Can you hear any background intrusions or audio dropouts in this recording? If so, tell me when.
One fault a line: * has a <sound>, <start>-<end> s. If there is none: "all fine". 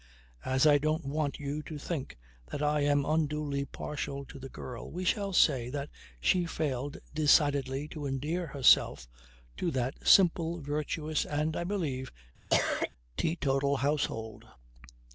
* has a cough, 12.5-12.9 s